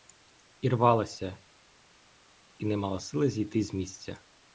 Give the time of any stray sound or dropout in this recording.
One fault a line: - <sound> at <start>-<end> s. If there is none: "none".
none